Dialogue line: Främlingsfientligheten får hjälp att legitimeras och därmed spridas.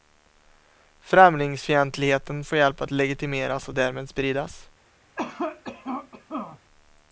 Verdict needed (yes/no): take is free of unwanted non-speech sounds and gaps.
no